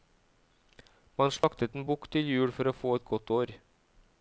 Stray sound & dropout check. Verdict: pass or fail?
fail